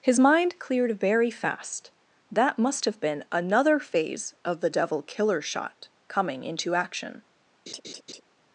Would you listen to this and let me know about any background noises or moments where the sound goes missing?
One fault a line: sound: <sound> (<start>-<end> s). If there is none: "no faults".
sound: laugh (7.7-8.2 s)